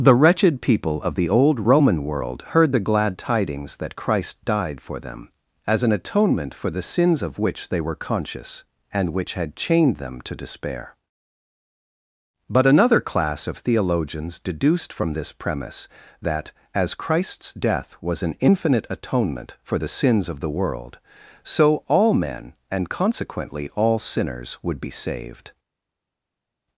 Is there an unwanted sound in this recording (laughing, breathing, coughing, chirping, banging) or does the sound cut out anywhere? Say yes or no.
no